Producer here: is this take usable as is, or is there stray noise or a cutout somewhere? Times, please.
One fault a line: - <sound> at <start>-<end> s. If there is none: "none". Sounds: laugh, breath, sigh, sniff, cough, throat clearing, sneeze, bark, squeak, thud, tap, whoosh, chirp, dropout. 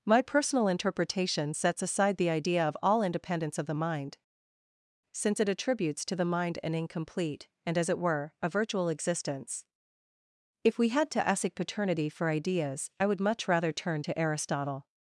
none